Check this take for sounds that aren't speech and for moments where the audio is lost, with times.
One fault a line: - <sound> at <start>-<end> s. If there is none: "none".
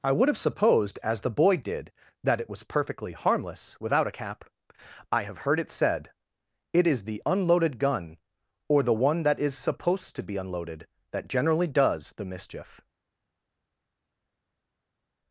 none